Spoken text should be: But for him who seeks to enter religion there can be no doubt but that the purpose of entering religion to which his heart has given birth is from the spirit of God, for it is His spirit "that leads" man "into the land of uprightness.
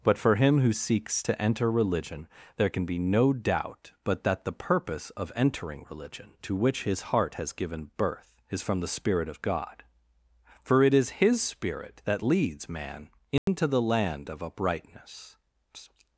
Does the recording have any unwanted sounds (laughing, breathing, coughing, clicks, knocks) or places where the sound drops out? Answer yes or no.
yes